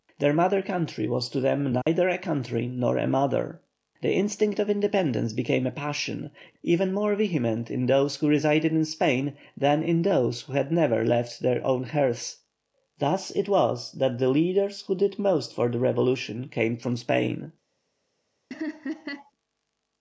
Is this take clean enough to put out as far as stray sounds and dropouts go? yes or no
no